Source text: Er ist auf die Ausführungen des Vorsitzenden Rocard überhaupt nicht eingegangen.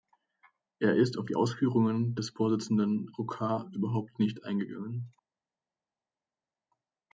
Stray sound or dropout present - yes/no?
no